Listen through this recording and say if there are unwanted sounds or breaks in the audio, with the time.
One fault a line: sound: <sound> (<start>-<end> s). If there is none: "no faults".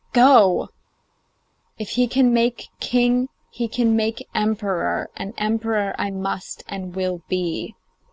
no faults